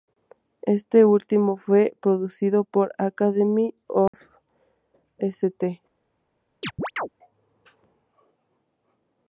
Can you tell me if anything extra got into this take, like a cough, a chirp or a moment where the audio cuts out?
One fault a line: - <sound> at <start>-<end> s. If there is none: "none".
- dropout at 4.1-4.1 s
- chirp at 6.6-7.1 s